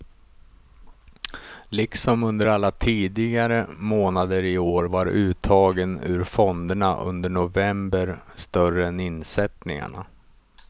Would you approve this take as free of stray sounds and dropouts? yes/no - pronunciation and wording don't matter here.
yes